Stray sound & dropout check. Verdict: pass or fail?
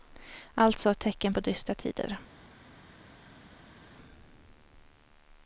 pass